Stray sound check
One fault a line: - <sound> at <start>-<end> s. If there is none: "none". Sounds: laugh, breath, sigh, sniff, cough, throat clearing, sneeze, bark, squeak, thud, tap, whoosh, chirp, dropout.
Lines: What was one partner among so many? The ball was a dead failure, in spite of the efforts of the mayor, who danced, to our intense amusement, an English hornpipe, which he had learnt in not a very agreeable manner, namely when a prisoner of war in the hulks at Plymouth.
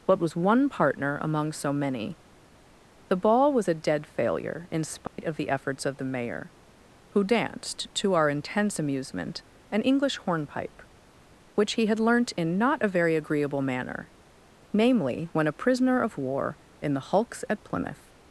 - dropout at 5.1-5.2 s